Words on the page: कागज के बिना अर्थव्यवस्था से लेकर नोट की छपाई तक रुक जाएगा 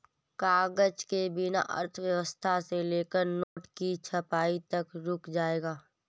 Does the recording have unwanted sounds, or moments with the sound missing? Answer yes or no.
yes